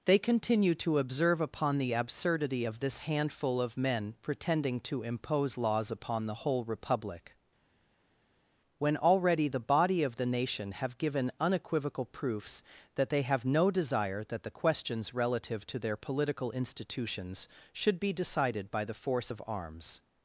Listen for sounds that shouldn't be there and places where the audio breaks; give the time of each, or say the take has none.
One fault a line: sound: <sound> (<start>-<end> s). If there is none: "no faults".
no faults